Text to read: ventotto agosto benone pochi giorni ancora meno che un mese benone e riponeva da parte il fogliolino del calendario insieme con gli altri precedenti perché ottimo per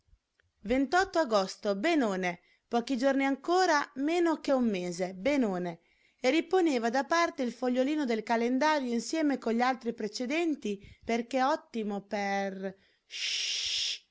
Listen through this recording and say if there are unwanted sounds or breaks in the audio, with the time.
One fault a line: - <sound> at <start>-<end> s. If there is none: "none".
none